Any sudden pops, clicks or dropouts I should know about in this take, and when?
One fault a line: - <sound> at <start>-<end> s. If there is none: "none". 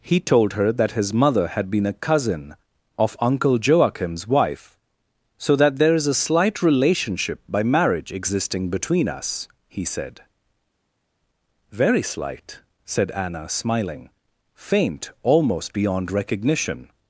none